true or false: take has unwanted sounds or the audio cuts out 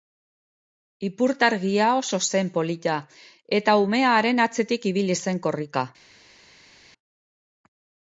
false